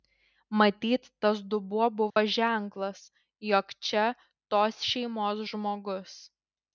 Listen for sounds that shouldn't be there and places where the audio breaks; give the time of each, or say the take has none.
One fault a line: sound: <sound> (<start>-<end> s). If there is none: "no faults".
sound: dropout (2.1-2.2 s)